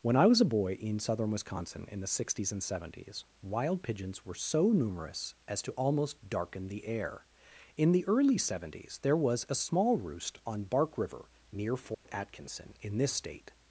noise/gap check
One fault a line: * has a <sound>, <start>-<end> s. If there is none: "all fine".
* has a dropout, 11.9-12.1 s